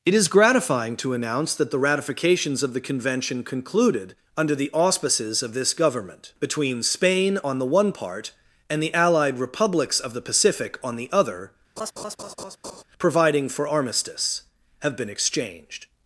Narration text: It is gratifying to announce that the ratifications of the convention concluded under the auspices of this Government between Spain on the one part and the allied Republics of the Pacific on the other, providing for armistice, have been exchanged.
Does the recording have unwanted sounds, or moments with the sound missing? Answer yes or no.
yes